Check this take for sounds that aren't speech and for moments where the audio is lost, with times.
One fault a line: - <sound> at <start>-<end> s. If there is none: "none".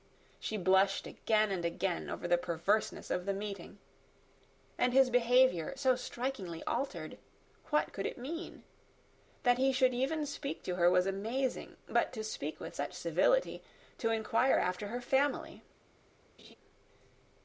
- laugh at 16.4-16.5 s